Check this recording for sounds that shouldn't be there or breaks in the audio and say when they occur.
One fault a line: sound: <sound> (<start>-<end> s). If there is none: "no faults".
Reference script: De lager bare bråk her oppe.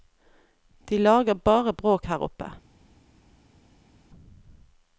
no faults